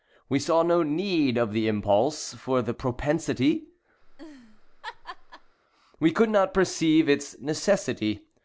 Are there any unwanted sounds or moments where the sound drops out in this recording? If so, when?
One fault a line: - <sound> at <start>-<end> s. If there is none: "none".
- laugh at 4.0-5.6 s